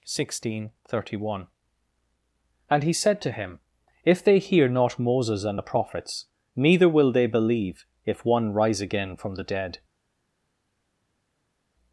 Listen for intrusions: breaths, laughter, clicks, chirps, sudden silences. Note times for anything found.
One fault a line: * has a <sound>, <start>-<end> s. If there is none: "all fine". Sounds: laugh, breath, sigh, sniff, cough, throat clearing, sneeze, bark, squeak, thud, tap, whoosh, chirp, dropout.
all fine